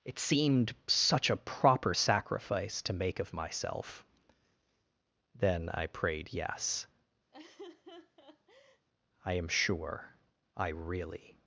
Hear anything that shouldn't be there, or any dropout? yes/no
yes